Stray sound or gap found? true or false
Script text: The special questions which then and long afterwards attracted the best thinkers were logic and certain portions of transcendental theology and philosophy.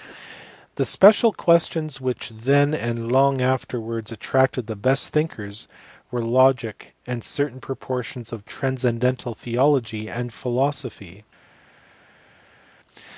false